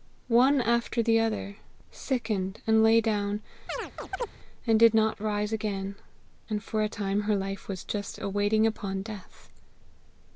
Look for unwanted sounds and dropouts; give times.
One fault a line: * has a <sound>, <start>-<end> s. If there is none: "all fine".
* has a chirp, 3.7-4.3 s